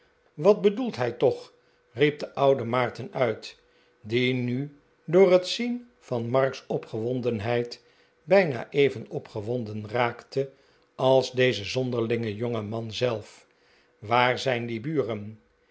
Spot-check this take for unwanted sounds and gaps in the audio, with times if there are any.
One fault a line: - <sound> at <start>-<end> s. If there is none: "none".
none